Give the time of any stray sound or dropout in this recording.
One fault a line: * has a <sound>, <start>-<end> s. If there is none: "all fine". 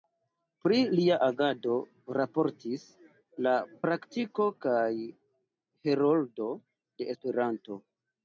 all fine